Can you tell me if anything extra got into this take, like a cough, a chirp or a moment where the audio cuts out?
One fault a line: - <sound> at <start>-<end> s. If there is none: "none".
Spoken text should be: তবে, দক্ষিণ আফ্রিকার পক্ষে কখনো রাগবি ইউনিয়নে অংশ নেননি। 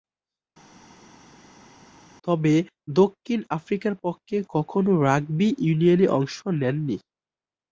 none